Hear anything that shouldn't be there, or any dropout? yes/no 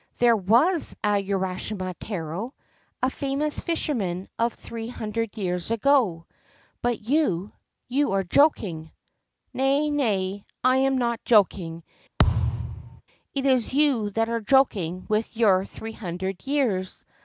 yes